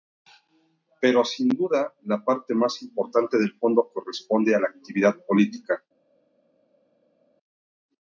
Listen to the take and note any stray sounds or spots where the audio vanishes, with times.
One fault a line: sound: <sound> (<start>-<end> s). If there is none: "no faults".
no faults